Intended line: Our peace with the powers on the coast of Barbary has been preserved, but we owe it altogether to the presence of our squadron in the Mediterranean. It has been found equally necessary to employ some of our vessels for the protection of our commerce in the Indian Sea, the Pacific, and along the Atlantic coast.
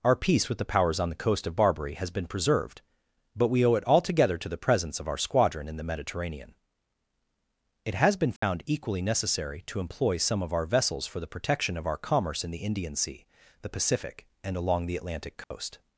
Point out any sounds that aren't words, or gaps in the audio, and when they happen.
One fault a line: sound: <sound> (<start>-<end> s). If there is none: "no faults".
sound: dropout (8.4-8.4 s)
sound: dropout (15.4-15.5 s)